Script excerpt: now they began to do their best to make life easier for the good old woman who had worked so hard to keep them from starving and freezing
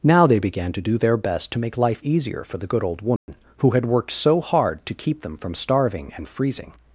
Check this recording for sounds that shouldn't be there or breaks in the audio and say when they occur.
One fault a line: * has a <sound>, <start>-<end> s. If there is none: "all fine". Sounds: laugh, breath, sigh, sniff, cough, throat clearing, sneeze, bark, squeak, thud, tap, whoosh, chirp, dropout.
* has a dropout, 3.2-3.3 s